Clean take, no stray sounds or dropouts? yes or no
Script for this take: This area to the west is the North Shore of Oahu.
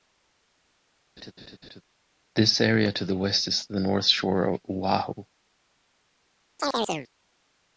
no